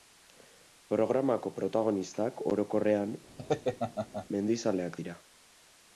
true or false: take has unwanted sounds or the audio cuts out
true